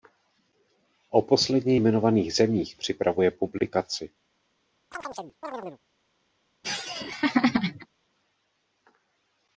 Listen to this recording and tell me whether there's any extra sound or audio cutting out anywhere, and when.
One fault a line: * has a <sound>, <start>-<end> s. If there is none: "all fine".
* has a chirp, 4.9-5.8 s
* has a laugh, 6.6-7.9 s